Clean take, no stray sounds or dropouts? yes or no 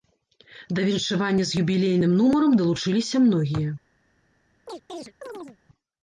no